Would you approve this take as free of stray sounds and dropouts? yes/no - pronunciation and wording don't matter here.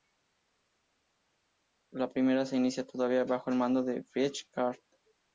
yes